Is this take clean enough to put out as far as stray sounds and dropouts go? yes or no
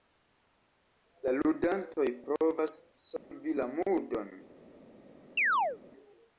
no